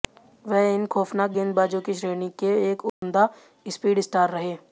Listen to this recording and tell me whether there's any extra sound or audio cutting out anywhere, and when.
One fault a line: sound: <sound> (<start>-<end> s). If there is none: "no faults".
sound: dropout (2.9-3.0 s)